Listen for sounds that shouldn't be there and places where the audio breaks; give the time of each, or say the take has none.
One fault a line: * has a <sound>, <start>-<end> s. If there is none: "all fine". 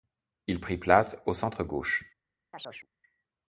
* has a chirp, 2.5-2.9 s